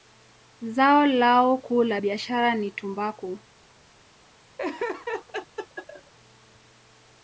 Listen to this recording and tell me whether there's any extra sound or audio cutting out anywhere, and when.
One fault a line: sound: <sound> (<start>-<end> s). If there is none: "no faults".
sound: laugh (4.6-6.1 s)